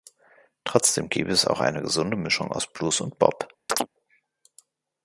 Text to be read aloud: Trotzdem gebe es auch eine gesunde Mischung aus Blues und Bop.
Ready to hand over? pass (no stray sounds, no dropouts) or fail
fail